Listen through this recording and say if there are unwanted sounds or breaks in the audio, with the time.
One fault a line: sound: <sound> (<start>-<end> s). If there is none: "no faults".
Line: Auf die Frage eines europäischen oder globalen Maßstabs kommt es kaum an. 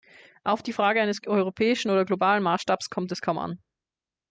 no faults